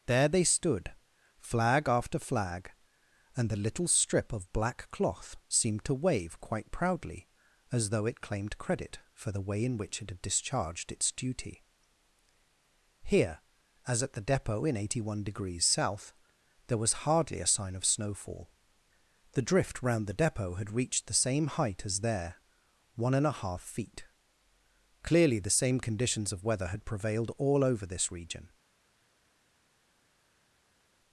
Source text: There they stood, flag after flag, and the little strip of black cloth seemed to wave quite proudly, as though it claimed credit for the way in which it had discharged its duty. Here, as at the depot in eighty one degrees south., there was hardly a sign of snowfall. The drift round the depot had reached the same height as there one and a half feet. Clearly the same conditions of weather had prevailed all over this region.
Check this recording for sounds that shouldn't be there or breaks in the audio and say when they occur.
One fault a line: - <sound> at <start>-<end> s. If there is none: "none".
none